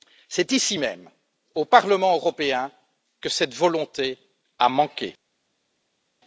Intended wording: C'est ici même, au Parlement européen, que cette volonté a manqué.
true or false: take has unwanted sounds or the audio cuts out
false